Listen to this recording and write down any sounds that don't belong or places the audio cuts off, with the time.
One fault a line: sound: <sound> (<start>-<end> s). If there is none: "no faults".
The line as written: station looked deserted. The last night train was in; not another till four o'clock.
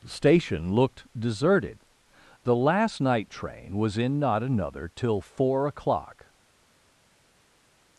no faults